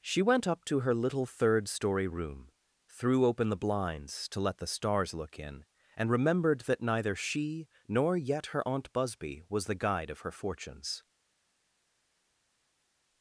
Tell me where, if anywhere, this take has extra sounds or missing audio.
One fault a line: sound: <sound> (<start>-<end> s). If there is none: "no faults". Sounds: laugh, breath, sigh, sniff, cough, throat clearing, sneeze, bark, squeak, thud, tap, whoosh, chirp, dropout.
no faults